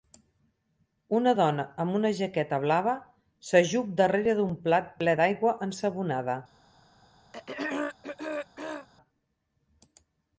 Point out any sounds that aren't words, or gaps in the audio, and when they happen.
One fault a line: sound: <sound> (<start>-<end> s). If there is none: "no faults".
sound: throat clearing (7.3-8.9 s)